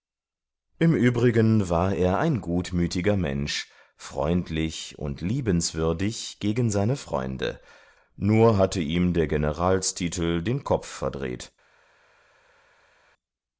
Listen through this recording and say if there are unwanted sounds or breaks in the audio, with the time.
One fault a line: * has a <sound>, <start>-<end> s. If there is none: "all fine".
all fine